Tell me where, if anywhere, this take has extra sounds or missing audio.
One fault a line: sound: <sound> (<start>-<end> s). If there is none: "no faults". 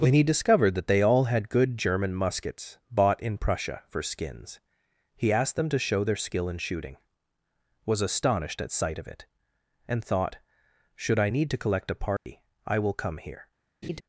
sound: dropout (12.2-12.3 s)
sound: laugh (13.8-14.0 s)